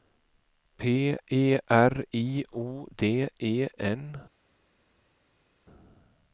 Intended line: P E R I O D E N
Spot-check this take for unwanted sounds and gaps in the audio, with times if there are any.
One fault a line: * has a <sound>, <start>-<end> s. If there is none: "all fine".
all fine